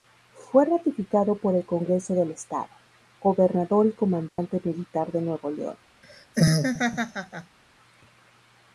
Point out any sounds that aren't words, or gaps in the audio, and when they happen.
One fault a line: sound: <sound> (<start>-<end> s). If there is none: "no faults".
sound: dropout (4.3-4.4 s)
sound: laugh (6.0-7.6 s)